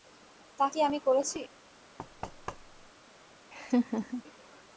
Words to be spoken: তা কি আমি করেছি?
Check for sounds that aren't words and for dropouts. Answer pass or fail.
fail